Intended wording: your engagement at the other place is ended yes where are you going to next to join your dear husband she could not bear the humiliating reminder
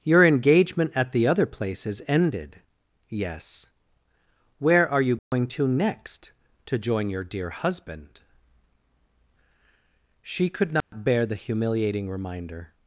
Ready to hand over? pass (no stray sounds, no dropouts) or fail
fail